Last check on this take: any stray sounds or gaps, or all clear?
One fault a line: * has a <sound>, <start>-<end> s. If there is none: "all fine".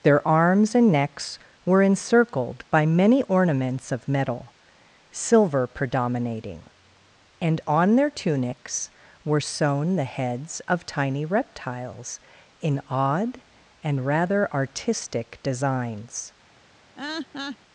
* has a laugh, 17.0-17.6 s